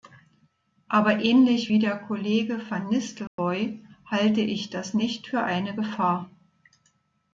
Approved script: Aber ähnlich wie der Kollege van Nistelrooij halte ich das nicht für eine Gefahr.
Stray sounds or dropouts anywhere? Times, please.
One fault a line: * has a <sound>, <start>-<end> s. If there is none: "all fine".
* has a dropout, 3.3-3.4 s